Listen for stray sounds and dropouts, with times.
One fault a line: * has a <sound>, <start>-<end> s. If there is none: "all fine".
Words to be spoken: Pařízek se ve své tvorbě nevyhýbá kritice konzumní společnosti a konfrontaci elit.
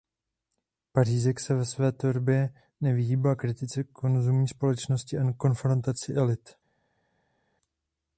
all fine